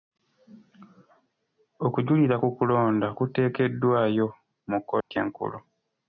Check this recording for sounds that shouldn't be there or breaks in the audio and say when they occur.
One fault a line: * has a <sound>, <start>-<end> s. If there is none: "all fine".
* has a dropout, 5.0-5.1 s